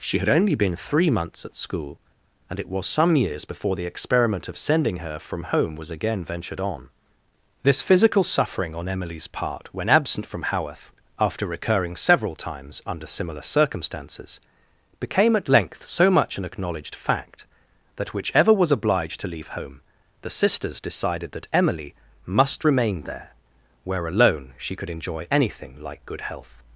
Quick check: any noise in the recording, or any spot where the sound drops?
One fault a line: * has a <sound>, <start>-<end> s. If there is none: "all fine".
all fine